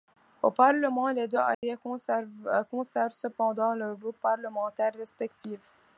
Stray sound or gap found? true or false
true